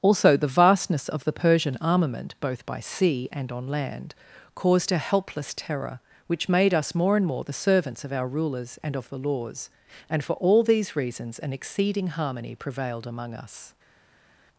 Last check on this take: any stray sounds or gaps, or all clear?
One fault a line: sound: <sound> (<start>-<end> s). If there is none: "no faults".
no faults